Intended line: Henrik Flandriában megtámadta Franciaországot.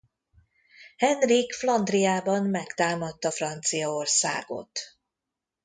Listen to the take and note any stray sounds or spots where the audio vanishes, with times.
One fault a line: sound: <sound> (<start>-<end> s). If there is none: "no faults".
no faults